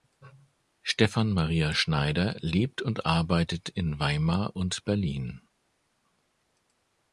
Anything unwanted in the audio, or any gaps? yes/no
no